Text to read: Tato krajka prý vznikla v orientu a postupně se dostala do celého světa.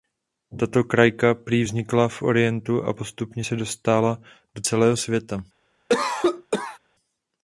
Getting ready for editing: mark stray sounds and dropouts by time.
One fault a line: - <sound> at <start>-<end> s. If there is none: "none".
- cough at 5.9-6.8 s